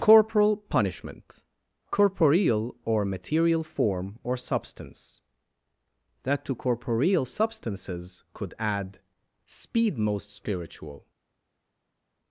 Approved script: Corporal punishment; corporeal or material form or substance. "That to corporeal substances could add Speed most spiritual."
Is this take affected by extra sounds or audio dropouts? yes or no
no